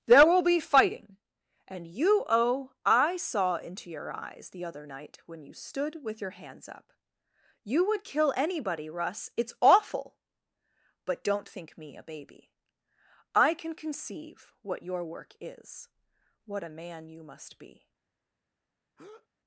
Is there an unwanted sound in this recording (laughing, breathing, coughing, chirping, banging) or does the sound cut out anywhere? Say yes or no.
yes